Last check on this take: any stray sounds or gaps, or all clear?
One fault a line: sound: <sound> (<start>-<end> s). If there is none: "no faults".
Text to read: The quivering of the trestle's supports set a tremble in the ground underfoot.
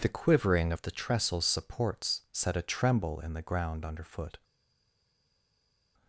no faults